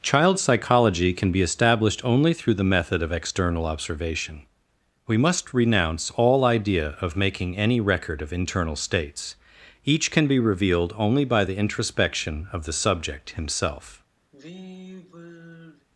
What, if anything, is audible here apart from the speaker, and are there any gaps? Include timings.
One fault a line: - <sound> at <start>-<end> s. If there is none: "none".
- sigh at 14.3-15.9 s